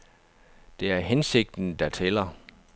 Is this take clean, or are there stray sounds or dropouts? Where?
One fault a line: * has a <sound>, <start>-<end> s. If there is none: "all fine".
all fine